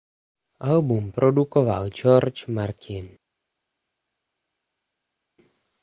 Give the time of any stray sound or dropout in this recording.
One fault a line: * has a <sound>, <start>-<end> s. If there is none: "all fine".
all fine